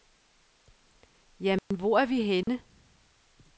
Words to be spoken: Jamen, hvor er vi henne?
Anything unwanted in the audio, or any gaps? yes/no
yes